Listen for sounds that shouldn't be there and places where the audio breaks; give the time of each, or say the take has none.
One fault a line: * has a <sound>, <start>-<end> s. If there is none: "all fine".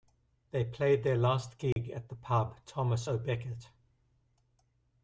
* has a dropout, 1.7-1.8 s